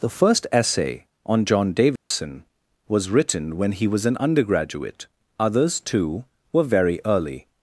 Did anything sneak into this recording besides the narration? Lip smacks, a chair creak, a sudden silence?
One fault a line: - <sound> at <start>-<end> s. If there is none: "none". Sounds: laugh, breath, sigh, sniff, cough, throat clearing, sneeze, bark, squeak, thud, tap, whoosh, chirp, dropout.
- dropout at 2.0-2.1 s